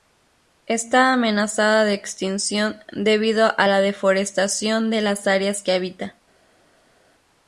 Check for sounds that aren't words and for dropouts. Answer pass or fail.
pass